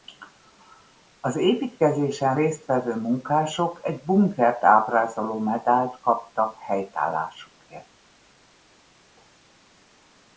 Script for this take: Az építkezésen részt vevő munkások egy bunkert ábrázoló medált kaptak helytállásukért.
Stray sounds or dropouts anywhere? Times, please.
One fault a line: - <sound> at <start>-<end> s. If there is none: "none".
none